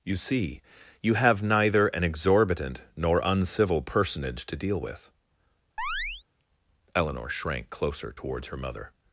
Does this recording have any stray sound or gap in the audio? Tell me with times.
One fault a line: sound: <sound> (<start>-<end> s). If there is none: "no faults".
sound: chirp (5.8-6.2 s)